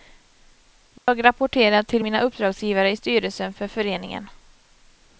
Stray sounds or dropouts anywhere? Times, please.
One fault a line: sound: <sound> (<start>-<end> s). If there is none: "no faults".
sound: dropout (1.0-1.1 s)